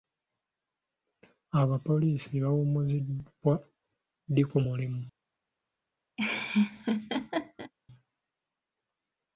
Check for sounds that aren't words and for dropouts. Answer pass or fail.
fail